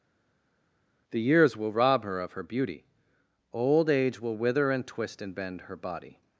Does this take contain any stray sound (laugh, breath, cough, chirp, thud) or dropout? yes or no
no